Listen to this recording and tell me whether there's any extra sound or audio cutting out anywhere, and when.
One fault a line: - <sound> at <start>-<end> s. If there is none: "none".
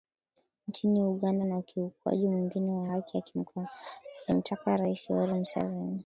none